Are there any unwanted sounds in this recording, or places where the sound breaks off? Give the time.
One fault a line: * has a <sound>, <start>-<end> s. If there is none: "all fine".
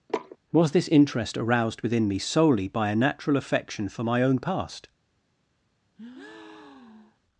* has a sniff, 0.1-0.4 s
* has a breath, 6.0-7.2 s